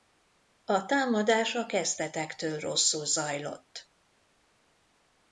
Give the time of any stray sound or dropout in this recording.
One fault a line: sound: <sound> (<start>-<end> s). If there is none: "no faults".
no faults